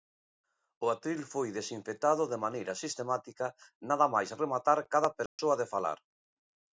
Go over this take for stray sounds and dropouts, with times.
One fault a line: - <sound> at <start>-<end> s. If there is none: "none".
- dropout at 5.3-5.4 s